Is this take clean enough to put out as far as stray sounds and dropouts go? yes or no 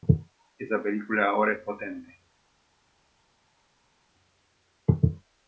yes